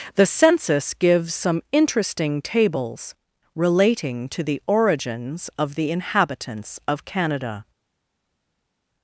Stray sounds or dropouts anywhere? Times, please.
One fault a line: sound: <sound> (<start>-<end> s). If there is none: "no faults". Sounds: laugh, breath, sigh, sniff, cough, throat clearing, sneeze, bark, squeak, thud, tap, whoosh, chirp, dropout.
no faults